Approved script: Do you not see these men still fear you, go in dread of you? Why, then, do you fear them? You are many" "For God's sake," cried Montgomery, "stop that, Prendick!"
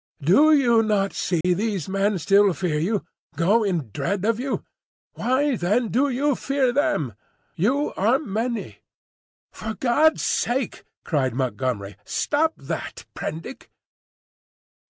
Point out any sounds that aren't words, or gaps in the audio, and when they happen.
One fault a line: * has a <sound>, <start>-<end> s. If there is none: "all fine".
* has a dropout, 1.4-1.4 s